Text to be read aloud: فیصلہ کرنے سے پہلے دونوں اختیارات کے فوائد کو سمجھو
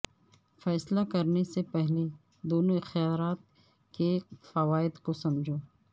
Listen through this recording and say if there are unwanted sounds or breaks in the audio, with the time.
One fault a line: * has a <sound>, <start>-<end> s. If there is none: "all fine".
all fine